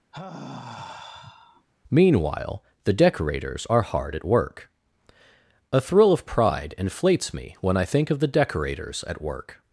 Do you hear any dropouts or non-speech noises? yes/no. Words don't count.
yes